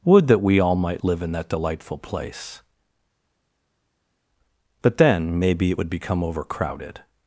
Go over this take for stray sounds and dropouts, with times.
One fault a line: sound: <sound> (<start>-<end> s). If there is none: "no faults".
no faults